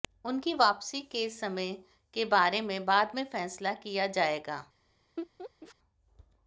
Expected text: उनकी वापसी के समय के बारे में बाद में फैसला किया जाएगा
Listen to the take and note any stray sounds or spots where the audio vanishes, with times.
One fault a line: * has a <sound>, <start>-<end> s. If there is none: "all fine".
* has a laugh, 5.2-5.8 s